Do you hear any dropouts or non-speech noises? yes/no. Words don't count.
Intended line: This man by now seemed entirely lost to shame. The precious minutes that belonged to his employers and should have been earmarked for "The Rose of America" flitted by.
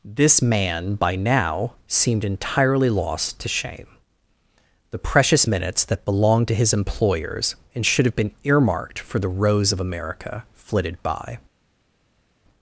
no